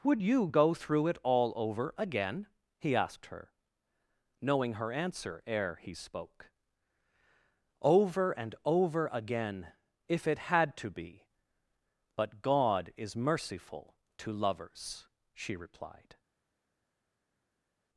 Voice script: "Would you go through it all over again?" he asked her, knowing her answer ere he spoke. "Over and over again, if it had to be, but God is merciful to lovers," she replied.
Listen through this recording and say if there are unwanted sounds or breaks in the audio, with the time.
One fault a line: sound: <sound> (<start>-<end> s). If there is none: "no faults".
no faults